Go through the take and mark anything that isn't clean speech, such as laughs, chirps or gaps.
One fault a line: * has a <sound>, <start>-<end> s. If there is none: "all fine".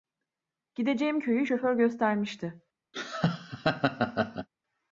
* has a laugh, 2.9-4.5 s